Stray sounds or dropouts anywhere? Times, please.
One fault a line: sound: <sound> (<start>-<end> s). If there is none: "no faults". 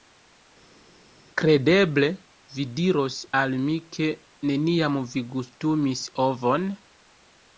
no faults